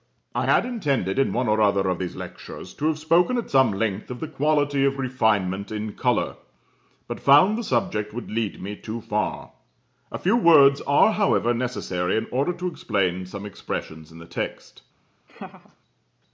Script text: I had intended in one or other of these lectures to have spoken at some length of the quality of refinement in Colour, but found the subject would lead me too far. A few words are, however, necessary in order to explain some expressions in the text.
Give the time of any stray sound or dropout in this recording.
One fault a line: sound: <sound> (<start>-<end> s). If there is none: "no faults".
sound: laugh (15.3-15.8 s)